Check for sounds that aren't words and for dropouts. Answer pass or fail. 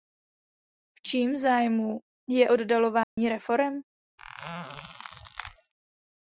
fail